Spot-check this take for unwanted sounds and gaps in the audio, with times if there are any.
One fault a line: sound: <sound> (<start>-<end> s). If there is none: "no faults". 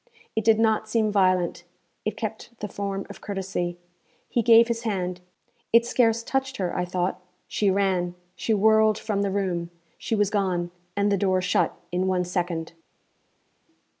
no faults